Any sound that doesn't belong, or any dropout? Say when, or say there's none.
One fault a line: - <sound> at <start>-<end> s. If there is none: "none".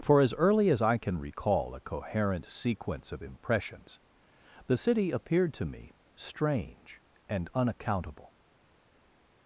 none